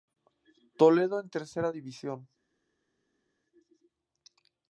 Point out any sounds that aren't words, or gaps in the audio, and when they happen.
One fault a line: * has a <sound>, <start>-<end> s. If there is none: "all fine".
all fine